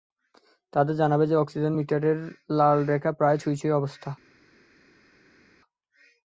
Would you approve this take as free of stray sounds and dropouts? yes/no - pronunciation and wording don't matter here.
yes